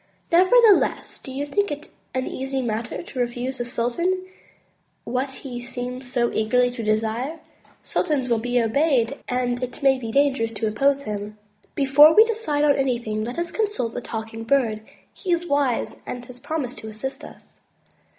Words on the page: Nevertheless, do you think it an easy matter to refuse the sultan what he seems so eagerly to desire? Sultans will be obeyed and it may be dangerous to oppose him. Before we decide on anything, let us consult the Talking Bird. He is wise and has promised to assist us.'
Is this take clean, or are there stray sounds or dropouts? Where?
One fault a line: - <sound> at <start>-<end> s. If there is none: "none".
none